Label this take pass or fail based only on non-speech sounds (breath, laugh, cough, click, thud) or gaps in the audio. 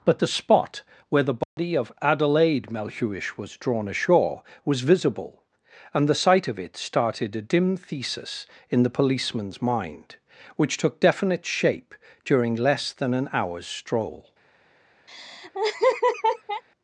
fail